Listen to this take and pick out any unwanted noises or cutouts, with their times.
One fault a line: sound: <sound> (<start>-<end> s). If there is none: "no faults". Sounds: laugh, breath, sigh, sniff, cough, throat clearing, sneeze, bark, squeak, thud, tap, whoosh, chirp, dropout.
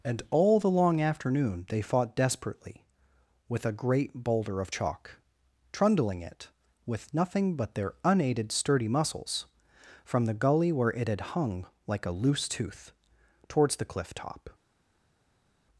no faults